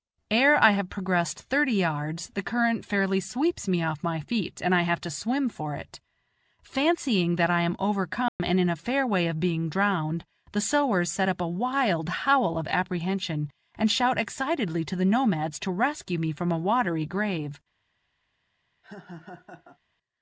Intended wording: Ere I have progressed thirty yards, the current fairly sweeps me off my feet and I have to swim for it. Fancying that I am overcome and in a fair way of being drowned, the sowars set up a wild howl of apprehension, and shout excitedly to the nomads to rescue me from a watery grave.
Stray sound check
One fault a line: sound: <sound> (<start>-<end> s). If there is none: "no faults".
sound: dropout (8.3-8.4 s)
sound: laugh (18.8-19.8 s)